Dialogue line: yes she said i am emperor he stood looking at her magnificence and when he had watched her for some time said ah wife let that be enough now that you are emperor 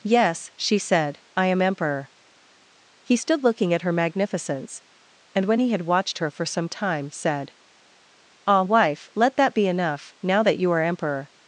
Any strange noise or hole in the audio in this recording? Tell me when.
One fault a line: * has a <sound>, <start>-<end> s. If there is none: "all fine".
all fine